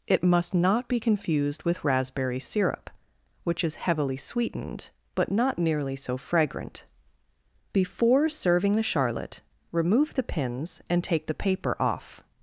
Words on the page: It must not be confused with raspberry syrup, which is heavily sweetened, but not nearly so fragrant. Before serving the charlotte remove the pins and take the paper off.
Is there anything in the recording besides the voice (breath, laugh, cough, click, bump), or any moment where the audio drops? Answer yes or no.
no